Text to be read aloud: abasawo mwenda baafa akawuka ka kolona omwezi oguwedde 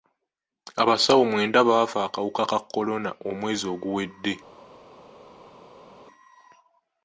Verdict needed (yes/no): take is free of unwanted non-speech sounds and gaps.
yes